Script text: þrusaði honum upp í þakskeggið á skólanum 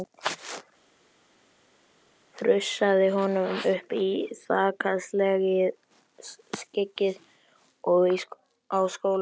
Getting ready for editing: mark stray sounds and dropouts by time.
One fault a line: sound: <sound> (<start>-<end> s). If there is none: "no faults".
no faults